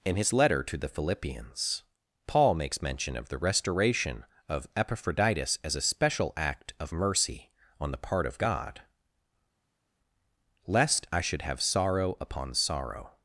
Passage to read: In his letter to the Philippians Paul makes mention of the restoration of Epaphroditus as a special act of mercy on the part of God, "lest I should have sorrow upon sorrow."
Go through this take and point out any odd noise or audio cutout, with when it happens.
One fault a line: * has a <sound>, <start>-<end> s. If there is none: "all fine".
all fine